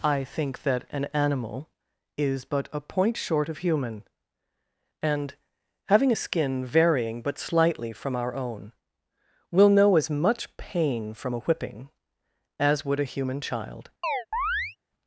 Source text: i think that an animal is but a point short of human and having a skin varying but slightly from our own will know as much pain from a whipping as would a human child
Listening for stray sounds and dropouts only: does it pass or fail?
fail